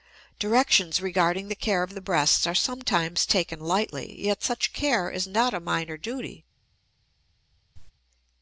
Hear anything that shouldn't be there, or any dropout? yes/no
yes